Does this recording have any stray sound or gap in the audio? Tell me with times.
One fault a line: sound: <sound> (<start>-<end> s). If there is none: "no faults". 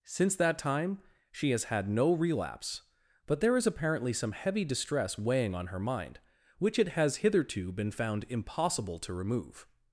no faults